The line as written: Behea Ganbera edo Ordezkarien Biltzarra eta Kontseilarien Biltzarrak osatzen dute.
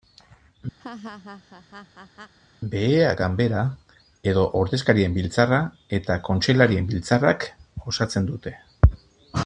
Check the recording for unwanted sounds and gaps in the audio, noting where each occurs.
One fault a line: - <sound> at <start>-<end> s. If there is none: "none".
- laugh at 0.8-2.3 s